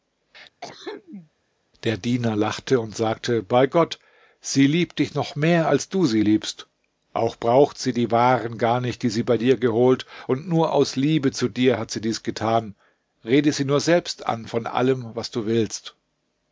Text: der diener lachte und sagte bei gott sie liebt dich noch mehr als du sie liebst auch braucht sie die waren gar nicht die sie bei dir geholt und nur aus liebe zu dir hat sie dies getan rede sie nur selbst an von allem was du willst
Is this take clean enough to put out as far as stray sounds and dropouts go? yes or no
no